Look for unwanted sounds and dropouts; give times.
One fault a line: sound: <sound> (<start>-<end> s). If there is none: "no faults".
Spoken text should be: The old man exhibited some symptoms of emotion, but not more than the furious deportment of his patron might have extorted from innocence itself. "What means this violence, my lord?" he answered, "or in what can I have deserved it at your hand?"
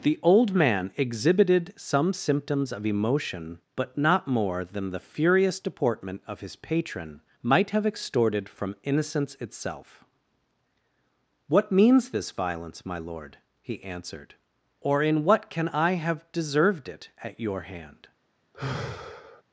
sound: sigh (18.5-19.4 s)